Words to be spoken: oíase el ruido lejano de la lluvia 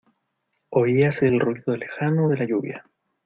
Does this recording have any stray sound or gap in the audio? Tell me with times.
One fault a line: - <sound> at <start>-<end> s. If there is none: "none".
none